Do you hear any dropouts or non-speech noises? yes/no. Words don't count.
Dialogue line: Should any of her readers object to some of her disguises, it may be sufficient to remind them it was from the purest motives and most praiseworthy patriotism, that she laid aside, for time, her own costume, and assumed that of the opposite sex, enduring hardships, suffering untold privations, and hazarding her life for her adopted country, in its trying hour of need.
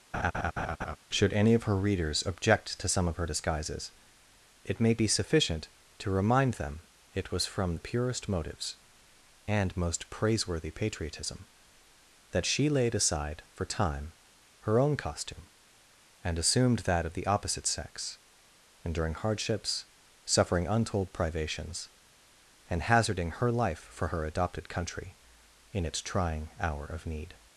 yes